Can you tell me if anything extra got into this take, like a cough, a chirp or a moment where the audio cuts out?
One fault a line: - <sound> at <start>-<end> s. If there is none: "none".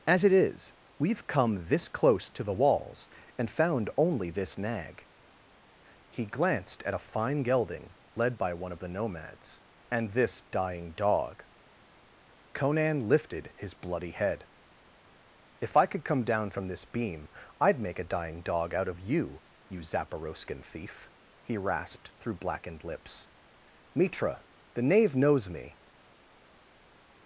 none